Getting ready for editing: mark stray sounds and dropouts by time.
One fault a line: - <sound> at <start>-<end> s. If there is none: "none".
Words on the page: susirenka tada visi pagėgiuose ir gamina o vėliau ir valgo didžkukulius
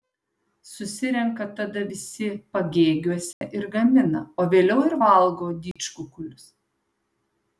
- dropout at 3.3-3.4 s
- dropout at 5.7-5.8 s